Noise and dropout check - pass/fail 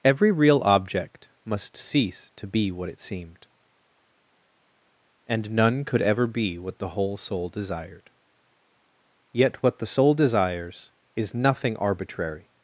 pass